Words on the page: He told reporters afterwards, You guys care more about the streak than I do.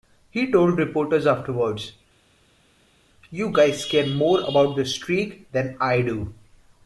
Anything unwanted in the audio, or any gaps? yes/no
no